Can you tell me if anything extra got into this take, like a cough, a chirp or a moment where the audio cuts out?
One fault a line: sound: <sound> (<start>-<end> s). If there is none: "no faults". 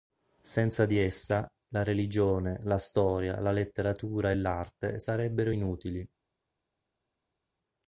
no faults